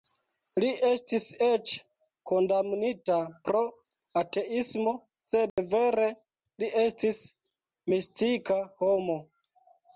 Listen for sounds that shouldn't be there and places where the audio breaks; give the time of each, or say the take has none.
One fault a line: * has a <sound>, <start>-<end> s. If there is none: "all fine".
* has a dropout, 5.5-5.6 s